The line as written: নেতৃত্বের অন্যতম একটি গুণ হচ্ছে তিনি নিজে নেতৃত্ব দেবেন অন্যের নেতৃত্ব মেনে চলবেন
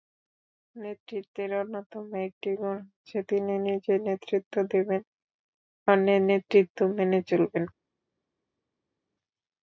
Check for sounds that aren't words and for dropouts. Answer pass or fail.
pass